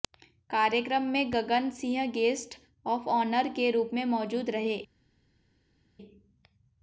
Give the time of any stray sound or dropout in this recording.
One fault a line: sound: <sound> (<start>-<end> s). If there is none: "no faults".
no faults